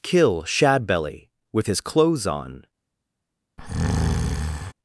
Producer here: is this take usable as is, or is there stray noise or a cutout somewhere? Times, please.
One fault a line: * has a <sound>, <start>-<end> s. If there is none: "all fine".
* has a breath, 3.6-4.7 s